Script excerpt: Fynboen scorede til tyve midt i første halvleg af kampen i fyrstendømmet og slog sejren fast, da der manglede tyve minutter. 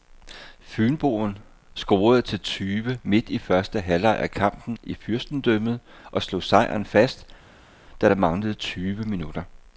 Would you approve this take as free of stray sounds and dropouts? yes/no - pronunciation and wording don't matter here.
yes